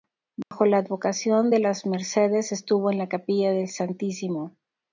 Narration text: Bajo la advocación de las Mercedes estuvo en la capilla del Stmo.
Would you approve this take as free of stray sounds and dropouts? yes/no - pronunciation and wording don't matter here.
no